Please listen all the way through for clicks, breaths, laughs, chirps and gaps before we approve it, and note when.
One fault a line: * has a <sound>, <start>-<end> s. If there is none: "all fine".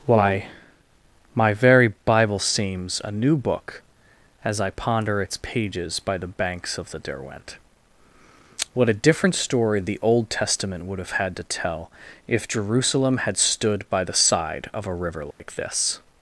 * has a dropout, 15.3-15.4 s